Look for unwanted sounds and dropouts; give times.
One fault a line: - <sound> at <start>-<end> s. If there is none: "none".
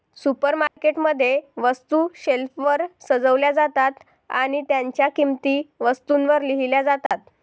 - dropout at 0.7-0.8 s
- dropout at 7.1-7.1 s